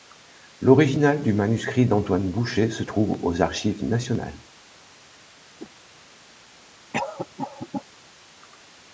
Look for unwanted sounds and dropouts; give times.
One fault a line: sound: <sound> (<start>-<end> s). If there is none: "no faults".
sound: whoosh (5.6-5.7 s)
sound: cough (6.9-7.8 s)